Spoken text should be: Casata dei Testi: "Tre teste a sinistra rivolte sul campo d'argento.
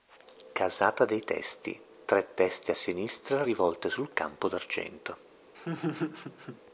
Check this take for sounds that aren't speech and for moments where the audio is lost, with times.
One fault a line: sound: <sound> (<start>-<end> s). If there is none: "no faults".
sound: laugh (5.5-6.6 s)